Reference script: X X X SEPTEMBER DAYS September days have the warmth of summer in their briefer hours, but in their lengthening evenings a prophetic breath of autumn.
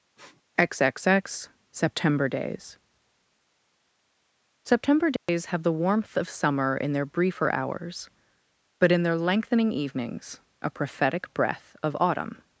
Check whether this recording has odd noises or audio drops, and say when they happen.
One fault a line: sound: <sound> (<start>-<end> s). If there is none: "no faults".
sound: sniff (0.2-0.4 s)
sound: dropout (5.2-5.3 s)